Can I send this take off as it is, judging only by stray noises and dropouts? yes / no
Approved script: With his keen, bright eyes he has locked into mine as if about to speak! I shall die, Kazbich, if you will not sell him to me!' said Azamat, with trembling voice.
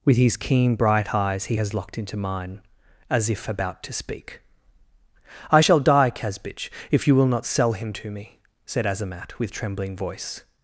yes